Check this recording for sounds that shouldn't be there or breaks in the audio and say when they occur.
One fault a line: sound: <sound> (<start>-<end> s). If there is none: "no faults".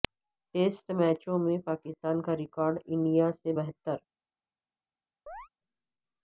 sound: chirp (5.3-5.5 s)